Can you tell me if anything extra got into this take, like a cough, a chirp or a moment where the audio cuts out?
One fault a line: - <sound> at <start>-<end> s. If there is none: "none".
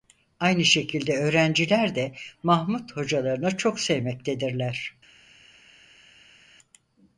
none